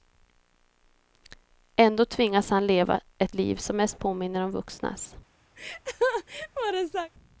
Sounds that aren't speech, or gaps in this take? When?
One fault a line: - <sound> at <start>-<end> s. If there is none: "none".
- laugh at 5.6-7.1 s